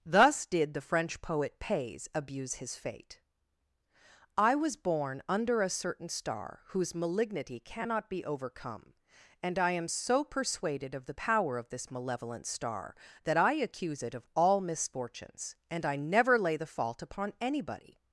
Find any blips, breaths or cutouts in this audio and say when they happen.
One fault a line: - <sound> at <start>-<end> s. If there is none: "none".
none